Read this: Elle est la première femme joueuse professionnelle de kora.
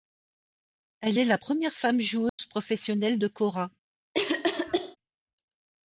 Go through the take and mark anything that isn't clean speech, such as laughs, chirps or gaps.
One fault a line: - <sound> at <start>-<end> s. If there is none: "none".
- dropout at 2.3-2.4 s
- cough at 4.1-5.0 s